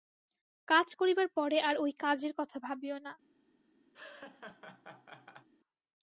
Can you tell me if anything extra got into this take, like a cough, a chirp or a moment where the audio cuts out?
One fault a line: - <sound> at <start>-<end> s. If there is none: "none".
- laugh at 3.9-5.5 s